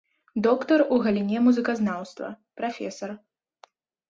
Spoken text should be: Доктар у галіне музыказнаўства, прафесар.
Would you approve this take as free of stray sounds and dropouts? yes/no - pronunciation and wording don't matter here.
yes